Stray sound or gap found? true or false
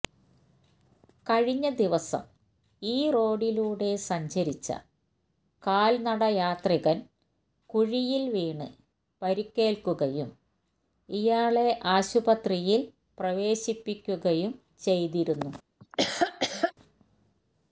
true